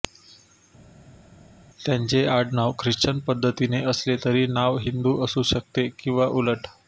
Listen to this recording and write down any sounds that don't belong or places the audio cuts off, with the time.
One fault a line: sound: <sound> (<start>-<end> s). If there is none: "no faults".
no faults